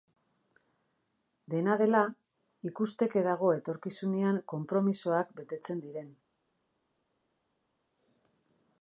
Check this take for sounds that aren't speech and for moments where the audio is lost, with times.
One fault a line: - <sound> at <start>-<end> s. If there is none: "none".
none